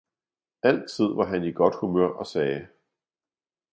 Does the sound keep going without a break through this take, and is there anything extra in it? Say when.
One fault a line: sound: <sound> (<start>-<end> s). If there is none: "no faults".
no faults